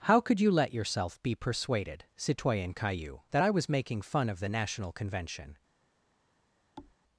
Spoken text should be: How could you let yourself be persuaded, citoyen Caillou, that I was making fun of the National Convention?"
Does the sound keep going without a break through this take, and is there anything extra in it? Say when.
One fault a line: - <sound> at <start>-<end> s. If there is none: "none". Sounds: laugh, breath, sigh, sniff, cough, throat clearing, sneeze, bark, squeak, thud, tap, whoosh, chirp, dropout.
- thud at 6.8-7.0 s